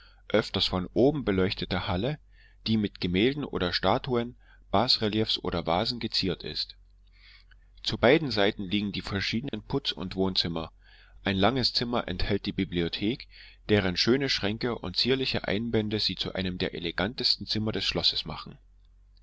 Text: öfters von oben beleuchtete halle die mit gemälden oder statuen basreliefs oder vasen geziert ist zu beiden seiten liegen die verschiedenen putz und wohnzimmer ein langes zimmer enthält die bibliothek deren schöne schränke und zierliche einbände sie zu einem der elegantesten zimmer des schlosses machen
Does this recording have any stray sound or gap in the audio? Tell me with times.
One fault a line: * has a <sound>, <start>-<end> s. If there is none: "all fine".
* has a dropout, 9.5-9.5 s